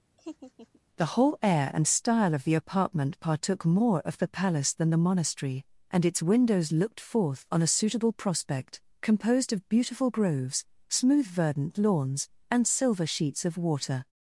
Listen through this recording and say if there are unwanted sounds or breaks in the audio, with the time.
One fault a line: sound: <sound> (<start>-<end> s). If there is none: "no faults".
sound: laugh (0.2-0.8 s)